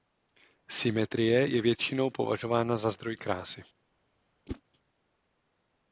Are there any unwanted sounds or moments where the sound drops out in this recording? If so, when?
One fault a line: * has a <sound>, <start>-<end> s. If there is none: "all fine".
* has a whoosh, 4.5-4.6 s